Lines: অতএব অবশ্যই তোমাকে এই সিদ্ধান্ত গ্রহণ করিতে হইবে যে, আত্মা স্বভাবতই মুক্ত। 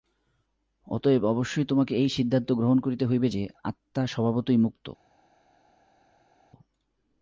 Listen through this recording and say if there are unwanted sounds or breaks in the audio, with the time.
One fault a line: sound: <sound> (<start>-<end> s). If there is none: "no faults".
no faults